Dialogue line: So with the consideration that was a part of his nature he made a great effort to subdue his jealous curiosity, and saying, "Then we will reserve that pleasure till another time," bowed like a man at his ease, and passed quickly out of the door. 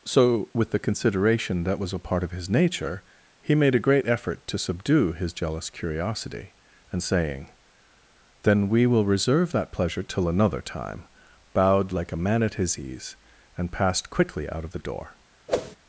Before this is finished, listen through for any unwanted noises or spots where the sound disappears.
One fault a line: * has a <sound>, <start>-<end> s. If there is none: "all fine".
* has a whoosh, 15.5-15.8 s